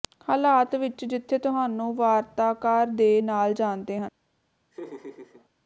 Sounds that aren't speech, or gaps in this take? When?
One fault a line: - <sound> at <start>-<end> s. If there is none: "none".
- laugh at 4.7-5.5 s